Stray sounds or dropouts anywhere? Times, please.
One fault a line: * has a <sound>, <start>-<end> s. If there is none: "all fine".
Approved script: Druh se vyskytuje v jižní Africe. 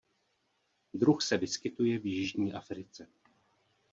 all fine